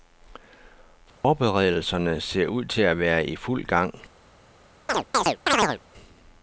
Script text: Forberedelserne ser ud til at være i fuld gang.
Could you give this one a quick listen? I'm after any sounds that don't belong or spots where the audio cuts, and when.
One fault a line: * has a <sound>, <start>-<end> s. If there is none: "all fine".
* has a dropout, 1.1-1.2 s
* has a chirp, 4.9-5.8 s